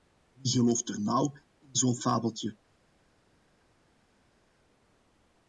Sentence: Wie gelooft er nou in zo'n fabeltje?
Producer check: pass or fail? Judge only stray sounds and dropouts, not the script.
pass